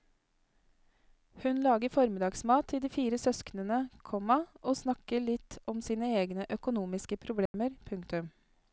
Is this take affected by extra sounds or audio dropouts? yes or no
yes